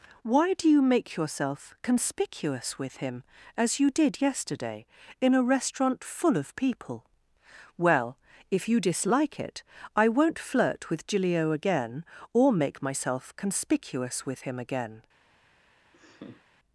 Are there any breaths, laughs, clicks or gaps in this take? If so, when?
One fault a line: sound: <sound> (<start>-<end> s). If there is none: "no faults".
sound: laugh (15.9-16.5 s)